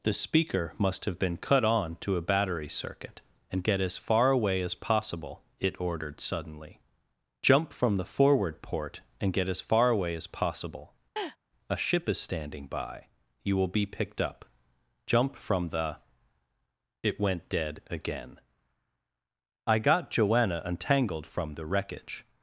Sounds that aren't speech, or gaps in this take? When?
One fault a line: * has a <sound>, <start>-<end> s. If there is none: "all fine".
* has a laugh, 11.2-11.4 s